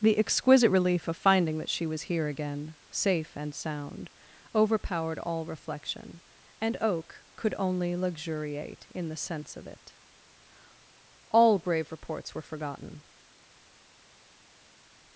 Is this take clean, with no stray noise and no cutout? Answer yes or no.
yes